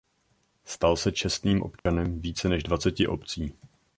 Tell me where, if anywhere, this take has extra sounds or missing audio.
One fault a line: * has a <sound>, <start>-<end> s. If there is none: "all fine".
* has a dropout, 1.8-1.9 s